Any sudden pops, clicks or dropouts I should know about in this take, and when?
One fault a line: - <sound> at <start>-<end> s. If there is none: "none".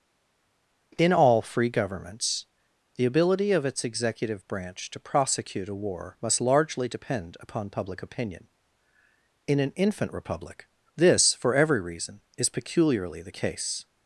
none